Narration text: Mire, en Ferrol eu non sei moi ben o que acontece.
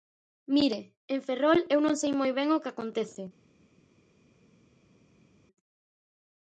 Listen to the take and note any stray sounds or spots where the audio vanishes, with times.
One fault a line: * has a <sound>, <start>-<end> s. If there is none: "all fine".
all fine